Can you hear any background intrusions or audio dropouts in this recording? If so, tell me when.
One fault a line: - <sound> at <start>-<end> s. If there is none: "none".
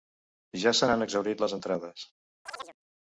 - chirp at 2.5-2.8 s